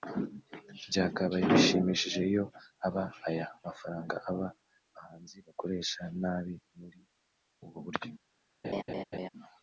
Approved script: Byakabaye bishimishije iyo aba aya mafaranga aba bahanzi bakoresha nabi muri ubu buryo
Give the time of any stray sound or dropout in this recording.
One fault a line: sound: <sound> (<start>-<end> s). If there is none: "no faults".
sound: laugh (8.6-9.3 s)